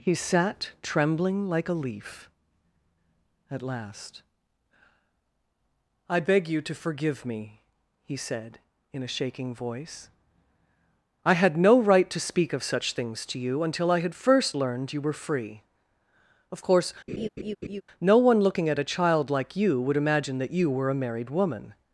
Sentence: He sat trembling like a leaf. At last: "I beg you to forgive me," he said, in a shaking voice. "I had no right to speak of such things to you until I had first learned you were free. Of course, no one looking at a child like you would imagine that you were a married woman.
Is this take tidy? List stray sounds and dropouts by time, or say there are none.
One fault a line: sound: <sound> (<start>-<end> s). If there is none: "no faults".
sound: laugh (17.1-17.8 s)